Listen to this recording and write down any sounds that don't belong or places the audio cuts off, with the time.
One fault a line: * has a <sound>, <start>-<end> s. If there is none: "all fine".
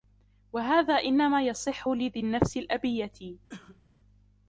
* has a cough, 3.5-3.8 s